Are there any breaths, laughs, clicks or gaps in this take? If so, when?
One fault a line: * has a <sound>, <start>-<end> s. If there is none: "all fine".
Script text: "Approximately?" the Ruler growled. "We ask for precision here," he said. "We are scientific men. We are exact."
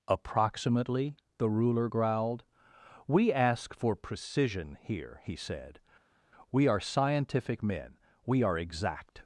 all fine